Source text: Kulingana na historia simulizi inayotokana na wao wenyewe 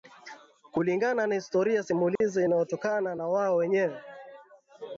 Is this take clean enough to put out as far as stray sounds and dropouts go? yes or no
no